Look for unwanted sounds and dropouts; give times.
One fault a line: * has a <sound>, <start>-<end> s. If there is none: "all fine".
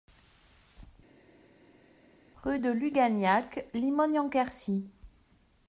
all fine